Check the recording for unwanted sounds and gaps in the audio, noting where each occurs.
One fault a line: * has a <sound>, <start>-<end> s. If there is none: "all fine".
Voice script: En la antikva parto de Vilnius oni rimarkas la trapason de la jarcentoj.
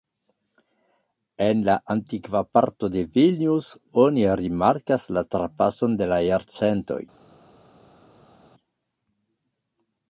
all fine